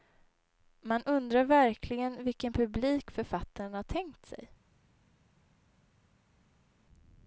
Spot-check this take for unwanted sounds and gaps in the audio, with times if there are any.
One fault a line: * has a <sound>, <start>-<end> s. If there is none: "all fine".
all fine